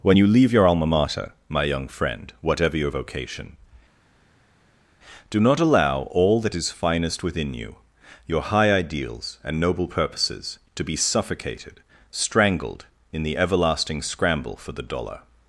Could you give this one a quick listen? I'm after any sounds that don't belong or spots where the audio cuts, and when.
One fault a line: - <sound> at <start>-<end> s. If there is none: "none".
none